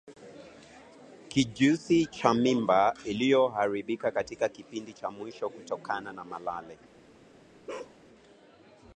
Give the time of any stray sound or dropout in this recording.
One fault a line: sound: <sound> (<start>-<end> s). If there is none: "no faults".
sound: bark (7.7-8.0 s)